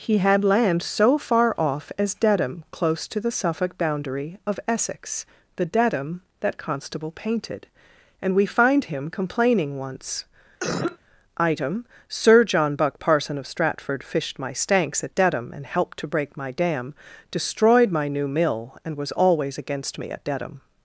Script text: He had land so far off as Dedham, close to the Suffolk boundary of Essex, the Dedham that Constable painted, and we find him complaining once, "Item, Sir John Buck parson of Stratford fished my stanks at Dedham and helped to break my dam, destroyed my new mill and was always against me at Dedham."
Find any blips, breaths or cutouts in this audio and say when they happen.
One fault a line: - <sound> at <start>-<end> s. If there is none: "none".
- cough at 10.6-11.0 s